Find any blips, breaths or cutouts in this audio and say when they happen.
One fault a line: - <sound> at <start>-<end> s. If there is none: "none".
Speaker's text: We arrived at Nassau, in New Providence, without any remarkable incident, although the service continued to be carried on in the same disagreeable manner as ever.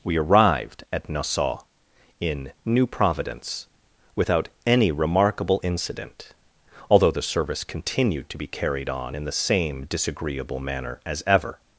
none